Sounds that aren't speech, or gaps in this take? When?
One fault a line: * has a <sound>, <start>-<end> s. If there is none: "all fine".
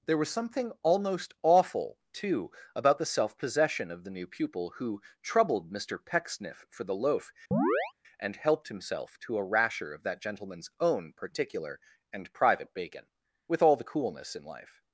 * has a chirp, 7.5-7.9 s